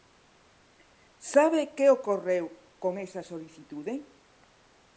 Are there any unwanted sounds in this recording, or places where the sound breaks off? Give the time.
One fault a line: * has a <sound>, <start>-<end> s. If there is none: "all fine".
all fine